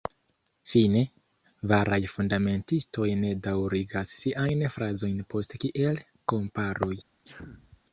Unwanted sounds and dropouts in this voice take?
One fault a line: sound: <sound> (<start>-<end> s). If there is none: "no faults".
sound: sneeze (7.2-7.8 s)